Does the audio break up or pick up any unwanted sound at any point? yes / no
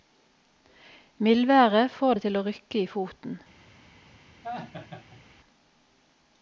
yes